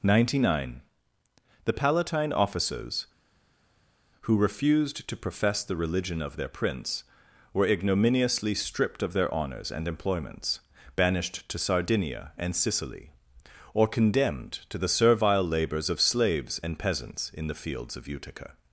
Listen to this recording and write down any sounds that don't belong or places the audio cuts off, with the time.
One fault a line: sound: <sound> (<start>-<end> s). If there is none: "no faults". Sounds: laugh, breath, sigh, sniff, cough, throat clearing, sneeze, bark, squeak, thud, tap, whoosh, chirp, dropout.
no faults